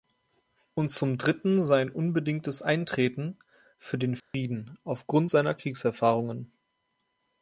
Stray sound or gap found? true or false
true